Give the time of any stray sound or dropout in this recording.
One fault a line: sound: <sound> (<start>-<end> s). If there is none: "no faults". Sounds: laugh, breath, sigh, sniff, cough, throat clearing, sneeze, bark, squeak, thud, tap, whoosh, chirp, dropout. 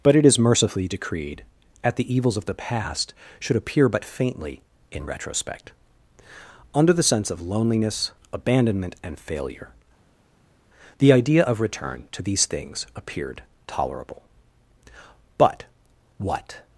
no faults